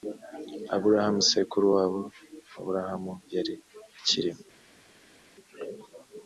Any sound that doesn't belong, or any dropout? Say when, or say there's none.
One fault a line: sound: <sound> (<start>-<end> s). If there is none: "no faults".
no faults